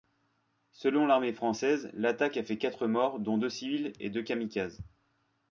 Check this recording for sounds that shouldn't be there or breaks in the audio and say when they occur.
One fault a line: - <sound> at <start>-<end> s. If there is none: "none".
none